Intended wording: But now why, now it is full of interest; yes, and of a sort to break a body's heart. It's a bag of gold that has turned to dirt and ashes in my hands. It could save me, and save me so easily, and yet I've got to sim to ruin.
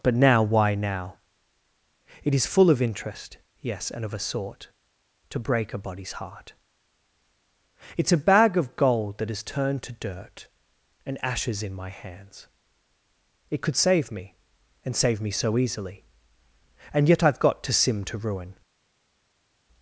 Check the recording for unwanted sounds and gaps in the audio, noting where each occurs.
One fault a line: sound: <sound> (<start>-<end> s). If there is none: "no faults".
no faults